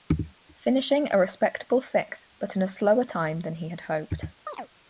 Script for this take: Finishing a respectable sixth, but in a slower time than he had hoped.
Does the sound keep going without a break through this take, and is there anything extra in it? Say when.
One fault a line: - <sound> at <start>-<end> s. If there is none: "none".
- chirp at 4.5-4.7 s